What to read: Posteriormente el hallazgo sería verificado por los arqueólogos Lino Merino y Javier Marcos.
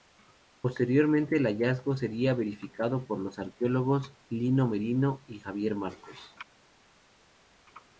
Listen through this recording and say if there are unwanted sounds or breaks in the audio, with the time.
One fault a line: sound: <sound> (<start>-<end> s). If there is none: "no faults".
no faults